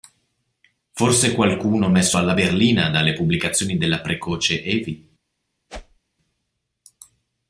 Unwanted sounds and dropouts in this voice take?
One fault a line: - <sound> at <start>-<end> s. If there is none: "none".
- whoosh at 5.7-6.0 s